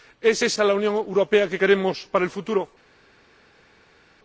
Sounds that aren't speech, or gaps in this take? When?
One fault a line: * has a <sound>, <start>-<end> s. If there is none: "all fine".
all fine